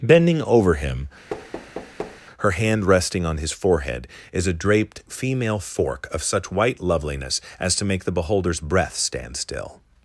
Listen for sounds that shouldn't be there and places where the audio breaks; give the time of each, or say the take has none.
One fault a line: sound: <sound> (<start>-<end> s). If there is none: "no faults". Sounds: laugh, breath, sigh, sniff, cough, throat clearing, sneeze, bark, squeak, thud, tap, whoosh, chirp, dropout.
sound: thud (1.3-2.2 s)